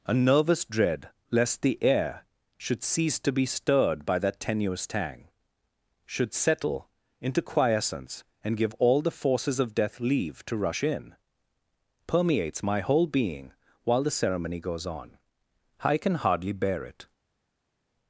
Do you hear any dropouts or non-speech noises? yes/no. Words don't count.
no